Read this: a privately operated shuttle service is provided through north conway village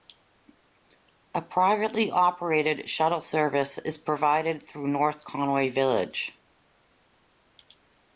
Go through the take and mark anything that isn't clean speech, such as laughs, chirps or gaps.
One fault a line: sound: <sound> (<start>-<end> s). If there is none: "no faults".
no faults